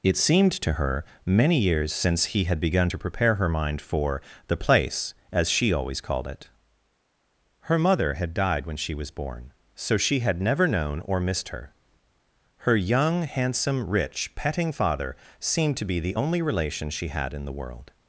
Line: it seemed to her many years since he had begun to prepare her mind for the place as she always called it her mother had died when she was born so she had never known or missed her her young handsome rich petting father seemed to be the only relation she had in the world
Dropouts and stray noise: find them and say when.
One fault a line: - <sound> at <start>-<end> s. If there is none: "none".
none